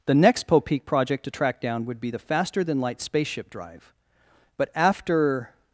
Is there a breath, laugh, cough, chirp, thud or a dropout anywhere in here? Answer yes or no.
no